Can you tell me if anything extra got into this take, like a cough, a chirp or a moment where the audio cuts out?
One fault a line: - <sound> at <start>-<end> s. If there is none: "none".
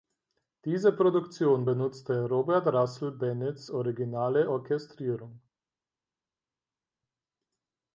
none